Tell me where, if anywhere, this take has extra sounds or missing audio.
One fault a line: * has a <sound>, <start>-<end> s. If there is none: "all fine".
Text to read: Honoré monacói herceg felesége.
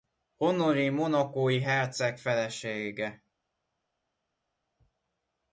all fine